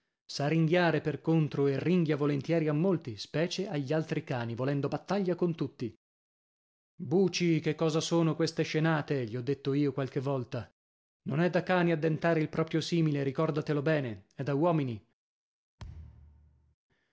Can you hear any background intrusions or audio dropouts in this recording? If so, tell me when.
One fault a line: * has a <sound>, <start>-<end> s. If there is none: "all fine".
* has a thud, 15.8-16.8 s